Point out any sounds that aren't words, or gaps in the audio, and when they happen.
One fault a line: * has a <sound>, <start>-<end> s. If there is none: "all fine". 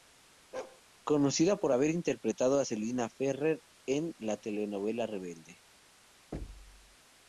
* has a bark, 0.5-0.8 s
* has a thud, 6.3-7.0 s